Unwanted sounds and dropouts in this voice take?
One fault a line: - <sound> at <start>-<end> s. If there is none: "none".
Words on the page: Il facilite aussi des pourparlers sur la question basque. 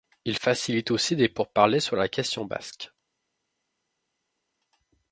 none